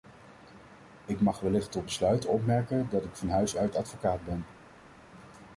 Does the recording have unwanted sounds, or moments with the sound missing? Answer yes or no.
no